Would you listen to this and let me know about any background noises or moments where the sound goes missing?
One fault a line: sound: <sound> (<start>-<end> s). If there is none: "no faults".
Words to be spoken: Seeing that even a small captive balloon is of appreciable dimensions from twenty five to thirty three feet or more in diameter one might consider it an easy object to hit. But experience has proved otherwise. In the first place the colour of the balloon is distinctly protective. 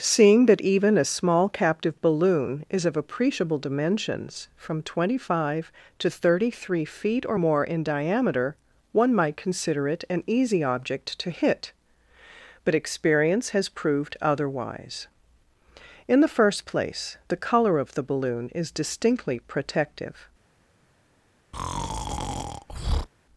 sound: breath (21.5-23.1 s)